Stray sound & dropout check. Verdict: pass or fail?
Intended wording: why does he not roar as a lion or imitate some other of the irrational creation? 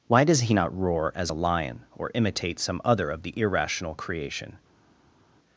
pass